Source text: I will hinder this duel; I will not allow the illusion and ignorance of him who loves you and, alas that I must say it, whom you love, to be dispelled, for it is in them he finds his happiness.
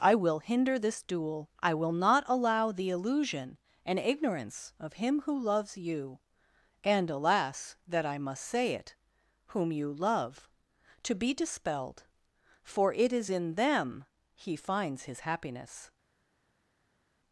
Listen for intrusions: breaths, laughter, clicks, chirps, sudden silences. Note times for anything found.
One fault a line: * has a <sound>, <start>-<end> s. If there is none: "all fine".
all fine